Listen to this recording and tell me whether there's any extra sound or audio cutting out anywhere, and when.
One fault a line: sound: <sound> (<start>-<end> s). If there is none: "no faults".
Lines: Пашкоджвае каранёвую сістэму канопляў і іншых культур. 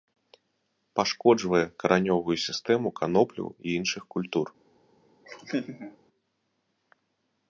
sound: laugh (5.2-6.0 s)